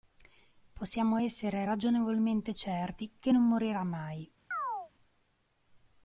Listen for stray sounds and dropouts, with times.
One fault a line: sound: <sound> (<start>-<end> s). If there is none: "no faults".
sound: chirp (4.5-4.9 s)